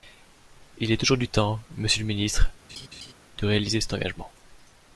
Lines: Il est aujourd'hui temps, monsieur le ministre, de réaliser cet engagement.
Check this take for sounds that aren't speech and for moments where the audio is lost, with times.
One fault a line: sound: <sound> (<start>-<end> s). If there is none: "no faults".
sound: laugh (2.7-3.1 s)